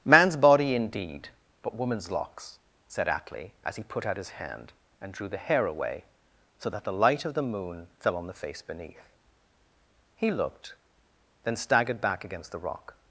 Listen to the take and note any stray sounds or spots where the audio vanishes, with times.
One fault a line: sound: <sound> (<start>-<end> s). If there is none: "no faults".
no faults